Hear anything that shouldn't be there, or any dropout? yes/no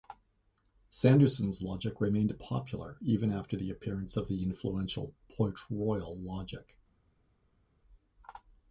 no